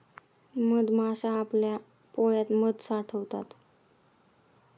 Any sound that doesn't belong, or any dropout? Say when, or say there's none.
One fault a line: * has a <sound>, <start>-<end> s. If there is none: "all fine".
all fine